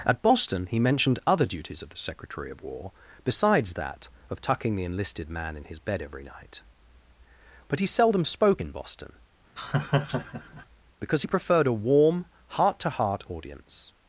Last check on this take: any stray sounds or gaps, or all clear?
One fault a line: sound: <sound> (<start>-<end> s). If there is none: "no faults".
sound: laugh (9.6-10.7 s)